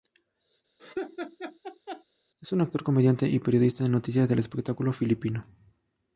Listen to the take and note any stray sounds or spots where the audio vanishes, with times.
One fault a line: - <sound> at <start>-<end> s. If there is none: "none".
- laugh at 0.8-2.0 s